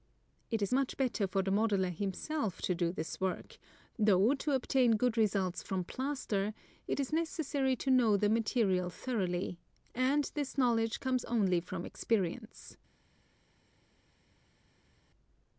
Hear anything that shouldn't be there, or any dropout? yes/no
no